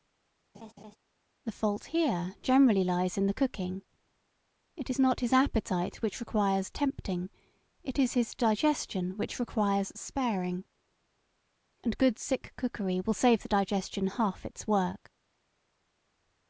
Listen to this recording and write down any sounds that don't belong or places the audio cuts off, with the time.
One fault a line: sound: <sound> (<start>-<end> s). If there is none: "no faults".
sound: laugh (0.5-1.0 s)